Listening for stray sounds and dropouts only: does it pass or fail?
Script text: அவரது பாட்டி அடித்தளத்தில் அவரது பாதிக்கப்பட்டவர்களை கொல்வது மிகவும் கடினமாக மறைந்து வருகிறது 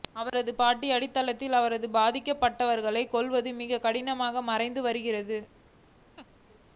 fail